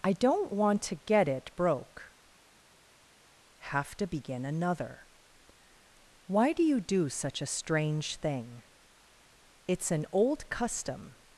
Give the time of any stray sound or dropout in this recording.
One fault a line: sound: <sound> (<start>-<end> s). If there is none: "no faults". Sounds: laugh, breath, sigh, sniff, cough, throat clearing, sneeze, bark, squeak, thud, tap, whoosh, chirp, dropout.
no faults